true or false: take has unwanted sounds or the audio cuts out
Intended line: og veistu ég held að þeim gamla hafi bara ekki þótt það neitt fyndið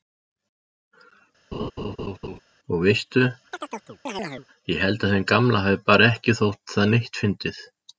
true